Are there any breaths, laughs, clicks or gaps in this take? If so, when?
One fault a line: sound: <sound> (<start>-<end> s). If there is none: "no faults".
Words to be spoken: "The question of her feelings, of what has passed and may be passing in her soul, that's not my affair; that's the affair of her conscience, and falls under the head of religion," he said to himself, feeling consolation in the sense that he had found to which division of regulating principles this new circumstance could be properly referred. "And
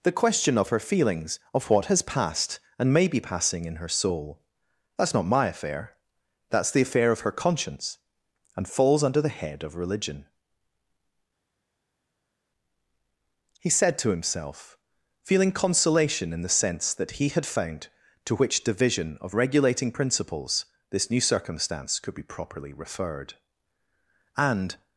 no faults